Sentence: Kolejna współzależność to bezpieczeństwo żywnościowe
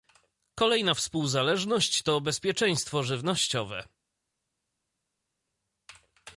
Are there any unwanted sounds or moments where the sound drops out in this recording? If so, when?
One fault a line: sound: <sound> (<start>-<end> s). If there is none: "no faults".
no faults